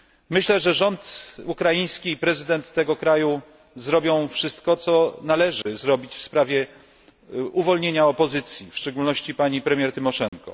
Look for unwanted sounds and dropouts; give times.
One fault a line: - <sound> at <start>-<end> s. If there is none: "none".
- dropout at 5.6-5.7 s
- dropout at 10.3-10.3 s